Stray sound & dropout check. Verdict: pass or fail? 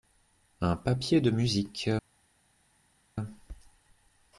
pass